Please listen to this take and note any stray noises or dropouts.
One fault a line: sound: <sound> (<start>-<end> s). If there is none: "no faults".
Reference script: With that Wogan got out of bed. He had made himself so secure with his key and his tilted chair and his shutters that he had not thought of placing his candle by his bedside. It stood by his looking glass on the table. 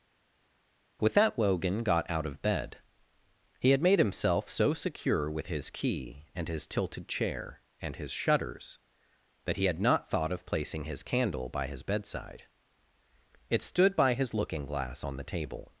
no faults